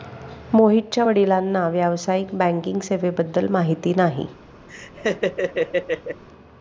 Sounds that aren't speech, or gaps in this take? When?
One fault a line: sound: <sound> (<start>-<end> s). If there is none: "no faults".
sound: laugh (4.7-6.2 s)